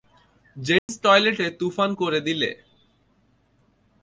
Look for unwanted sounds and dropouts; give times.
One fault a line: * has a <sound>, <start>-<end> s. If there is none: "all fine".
* has a dropout, 0.8-0.9 s